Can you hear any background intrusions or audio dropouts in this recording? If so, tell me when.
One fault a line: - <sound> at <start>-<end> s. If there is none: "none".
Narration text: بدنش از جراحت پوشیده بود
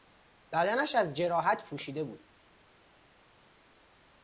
none